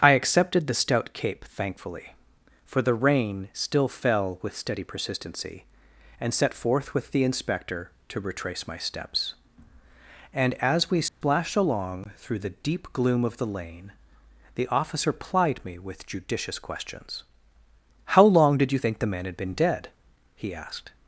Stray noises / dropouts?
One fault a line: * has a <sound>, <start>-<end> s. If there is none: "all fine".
* has a dropout, 11.1-11.2 s